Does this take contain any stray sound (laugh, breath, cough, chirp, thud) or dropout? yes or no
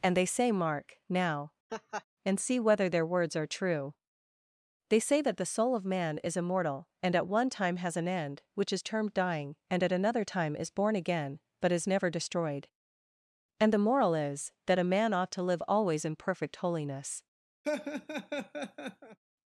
yes